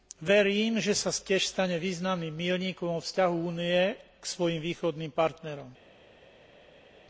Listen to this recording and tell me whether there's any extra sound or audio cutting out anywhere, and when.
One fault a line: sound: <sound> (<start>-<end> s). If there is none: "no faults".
no faults